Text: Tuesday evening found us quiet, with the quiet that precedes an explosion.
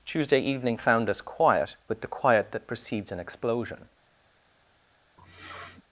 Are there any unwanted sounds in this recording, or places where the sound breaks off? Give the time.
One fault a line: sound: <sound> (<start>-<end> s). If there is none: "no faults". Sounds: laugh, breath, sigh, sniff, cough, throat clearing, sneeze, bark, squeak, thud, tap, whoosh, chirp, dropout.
sound: sniff (5.2-5.8 s)